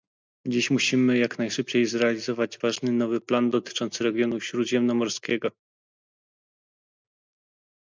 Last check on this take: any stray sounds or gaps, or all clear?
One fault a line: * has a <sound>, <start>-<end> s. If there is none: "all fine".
all fine